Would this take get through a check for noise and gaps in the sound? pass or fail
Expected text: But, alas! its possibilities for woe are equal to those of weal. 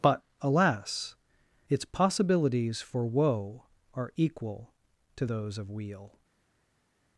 pass